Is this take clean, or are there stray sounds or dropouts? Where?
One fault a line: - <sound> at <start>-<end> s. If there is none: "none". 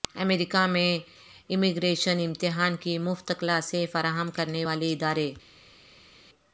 none